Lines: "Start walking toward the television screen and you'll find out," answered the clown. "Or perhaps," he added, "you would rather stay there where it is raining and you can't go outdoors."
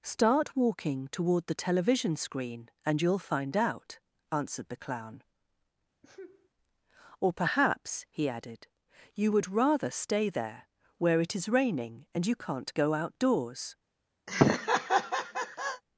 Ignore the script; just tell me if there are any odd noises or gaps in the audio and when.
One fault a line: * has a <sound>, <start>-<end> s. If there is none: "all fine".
* has a sneeze, 6.0-6.5 s
* has a laugh, 14.3-15.8 s